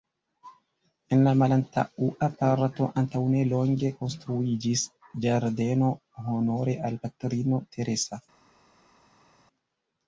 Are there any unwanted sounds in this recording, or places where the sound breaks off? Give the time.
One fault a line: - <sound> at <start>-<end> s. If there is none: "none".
none